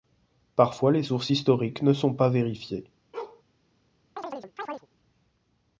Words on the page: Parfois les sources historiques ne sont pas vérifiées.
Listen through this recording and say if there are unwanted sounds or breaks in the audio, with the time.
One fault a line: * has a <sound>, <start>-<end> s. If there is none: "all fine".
* has a bark, 3.1-3.4 s
* has a chirp, 4.2-4.9 s